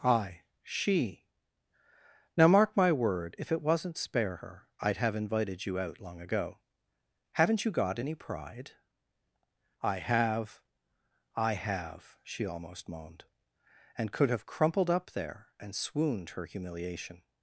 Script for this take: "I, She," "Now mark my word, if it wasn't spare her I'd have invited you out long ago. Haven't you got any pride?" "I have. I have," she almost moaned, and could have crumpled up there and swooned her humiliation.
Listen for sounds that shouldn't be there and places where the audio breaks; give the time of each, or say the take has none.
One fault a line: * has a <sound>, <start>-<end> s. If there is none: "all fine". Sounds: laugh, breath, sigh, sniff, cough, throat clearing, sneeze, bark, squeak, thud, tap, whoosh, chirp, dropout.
all fine